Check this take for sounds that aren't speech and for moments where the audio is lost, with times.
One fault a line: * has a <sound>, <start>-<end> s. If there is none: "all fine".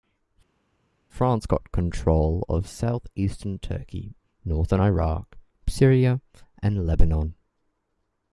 all fine